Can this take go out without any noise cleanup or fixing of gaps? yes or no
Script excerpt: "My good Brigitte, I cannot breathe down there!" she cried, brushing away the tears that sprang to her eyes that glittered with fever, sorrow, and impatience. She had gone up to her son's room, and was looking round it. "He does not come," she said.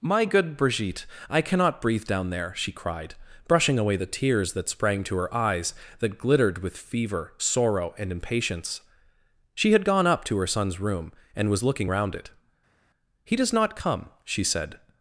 yes